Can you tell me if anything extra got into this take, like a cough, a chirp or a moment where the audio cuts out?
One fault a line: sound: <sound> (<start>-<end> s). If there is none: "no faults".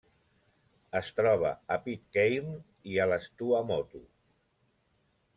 no faults